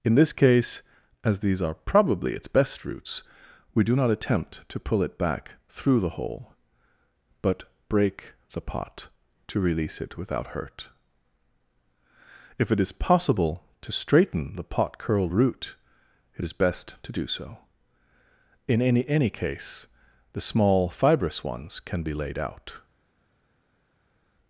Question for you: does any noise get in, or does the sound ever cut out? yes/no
no